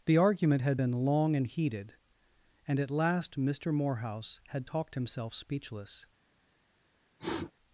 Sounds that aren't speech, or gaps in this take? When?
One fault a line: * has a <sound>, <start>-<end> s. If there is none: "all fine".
* has a sniff, 7.2-7.5 s